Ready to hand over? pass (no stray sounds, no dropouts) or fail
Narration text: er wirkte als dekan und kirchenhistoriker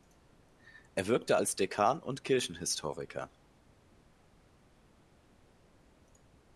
pass